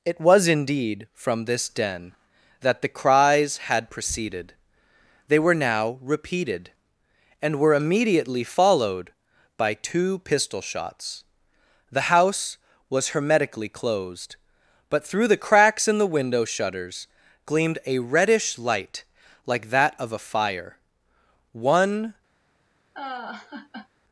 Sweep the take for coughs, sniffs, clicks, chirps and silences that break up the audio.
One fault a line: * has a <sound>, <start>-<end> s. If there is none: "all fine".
* has a laugh, 22.9-23.9 s